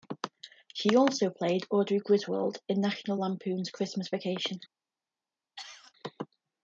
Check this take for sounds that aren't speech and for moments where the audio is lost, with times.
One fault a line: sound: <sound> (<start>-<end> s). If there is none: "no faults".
sound: cough (5.6-5.9 s)